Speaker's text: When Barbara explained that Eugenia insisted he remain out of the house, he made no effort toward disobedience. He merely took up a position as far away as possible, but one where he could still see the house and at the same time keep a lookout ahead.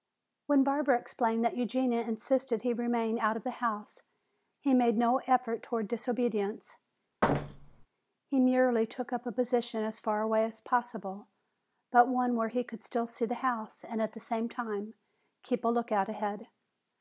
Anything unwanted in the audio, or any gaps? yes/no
yes